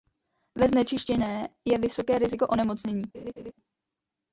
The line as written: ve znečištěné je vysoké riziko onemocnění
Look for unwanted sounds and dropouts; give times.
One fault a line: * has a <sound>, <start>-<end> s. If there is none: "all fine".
* has a laugh, 3.1-3.5 s